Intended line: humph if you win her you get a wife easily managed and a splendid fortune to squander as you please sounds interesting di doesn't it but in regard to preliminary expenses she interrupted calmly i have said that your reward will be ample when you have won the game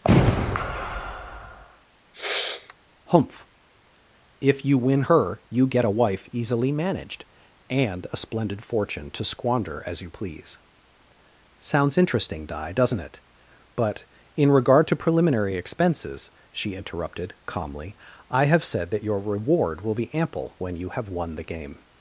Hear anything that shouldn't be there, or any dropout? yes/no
yes